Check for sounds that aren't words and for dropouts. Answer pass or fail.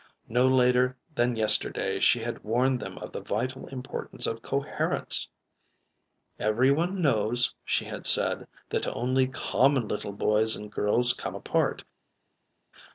pass